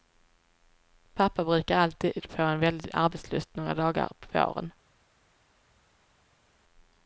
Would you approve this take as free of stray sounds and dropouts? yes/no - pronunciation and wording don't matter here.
yes